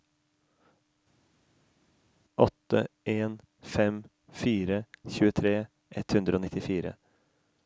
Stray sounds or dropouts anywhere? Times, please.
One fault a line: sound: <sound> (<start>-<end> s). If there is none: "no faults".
no faults